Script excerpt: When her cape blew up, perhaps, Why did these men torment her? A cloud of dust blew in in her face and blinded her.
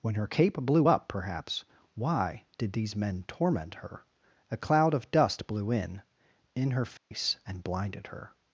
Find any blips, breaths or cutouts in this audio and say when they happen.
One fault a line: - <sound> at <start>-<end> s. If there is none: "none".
- dropout at 7.0-7.1 s